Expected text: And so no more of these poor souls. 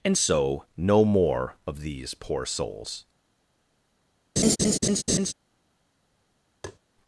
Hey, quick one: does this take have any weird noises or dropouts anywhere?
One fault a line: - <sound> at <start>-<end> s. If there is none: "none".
- laugh at 4.4-5.3 s
- tap at 6.6-6.8 s